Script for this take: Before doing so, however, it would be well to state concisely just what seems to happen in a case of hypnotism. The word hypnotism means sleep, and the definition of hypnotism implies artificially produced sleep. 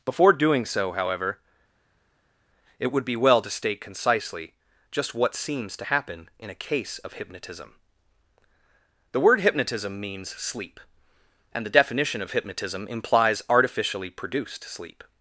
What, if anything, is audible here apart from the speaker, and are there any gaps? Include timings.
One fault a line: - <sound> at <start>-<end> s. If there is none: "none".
none